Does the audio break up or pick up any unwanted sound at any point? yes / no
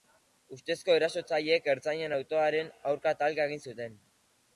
no